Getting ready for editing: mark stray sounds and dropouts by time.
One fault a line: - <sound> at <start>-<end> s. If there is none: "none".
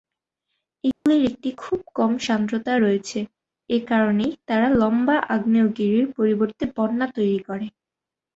- dropout at 0.9-1.1 s